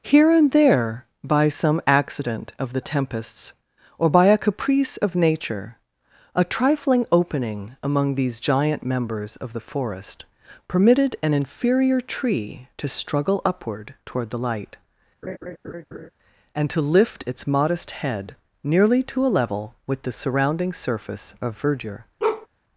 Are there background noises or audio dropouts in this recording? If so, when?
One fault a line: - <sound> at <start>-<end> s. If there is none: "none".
- laugh at 15.2-16.1 s
- bark at 22.2-22.5 s